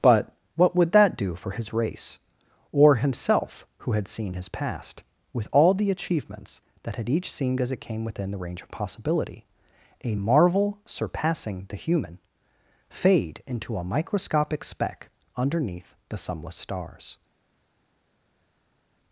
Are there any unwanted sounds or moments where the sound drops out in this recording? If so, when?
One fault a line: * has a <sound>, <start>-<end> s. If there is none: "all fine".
all fine